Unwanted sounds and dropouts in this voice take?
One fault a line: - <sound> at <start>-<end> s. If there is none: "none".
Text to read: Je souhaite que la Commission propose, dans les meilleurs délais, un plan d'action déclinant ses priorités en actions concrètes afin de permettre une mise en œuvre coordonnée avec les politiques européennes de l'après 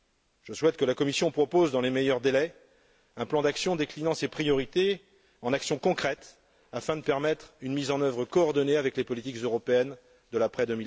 none